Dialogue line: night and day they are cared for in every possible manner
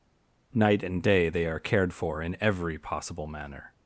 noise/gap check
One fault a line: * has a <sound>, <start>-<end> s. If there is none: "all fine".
all fine